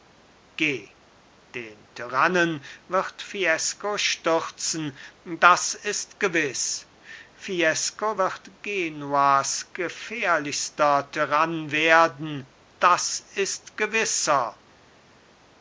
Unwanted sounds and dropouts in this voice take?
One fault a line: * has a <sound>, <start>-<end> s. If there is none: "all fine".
all fine